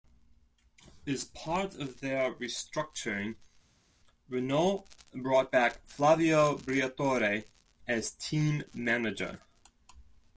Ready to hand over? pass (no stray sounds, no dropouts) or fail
pass